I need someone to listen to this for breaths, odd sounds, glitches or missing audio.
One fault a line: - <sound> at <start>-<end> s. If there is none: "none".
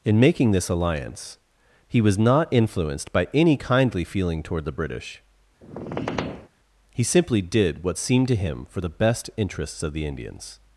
- squeak at 5.6-6.5 s